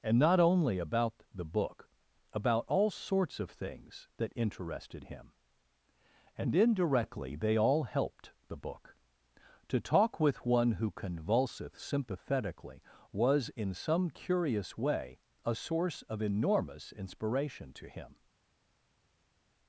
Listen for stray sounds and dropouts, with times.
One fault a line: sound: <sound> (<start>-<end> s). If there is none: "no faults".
no faults